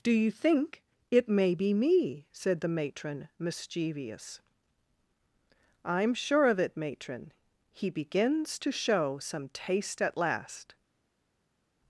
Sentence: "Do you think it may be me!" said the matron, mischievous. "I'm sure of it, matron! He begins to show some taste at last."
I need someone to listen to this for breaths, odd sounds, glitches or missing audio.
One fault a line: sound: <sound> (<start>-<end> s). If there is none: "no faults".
no faults